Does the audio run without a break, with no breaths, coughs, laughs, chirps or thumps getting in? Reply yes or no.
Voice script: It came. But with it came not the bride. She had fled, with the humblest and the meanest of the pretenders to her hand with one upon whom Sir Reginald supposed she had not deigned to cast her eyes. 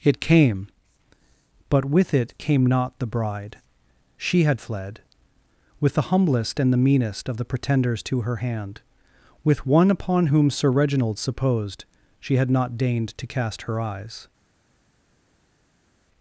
yes